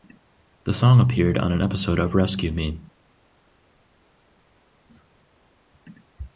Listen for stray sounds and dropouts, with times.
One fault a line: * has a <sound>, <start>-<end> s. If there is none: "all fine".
all fine